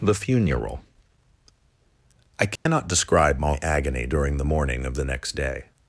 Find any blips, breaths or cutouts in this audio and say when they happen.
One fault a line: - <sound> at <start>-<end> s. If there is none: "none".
- dropout at 2.6-2.7 s